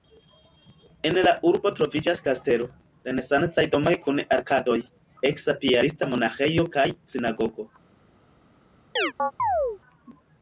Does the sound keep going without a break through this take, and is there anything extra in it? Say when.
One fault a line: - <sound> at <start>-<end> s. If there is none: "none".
- chirp at 9.0-9.8 s